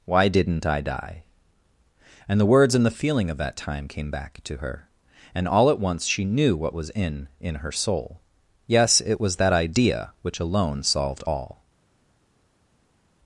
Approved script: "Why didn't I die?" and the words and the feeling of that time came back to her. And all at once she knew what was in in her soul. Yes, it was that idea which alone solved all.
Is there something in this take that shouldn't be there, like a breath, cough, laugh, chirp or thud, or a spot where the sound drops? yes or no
no